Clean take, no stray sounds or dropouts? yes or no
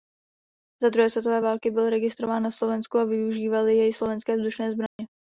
no